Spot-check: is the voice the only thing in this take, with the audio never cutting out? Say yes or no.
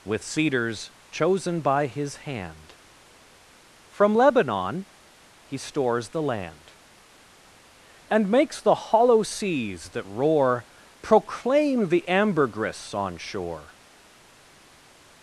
yes